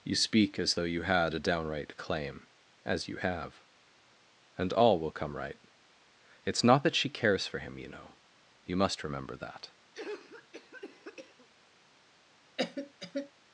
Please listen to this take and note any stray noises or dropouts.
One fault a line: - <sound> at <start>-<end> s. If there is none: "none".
- cough at 9.9-11.5 s
- cough at 12.6-13.3 s